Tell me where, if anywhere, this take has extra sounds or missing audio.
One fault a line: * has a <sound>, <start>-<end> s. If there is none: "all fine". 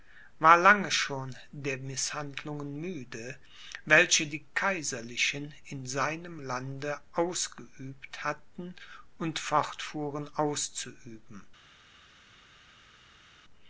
all fine